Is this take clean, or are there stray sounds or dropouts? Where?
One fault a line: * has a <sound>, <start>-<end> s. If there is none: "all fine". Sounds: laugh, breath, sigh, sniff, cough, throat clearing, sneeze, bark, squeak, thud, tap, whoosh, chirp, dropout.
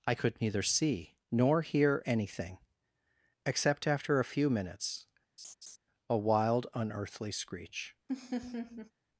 * has a laugh, 5.4-5.8 s
* has a laugh, 8.1-8.9 s